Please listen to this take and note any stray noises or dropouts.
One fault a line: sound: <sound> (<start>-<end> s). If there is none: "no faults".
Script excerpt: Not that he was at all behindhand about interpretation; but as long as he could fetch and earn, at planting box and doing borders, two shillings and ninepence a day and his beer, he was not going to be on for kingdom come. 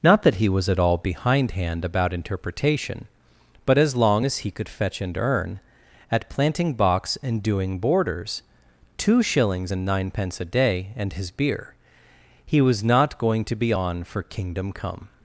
no faults